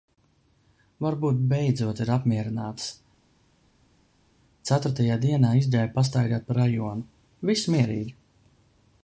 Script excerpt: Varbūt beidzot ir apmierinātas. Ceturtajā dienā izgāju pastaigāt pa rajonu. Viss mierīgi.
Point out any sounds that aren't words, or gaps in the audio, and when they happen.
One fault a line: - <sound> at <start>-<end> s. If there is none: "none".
none